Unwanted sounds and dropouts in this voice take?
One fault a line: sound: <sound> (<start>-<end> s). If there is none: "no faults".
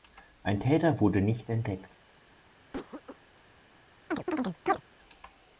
sound: cough (2.7-3.2 s)
sound: chirp (4.1-4.8 s)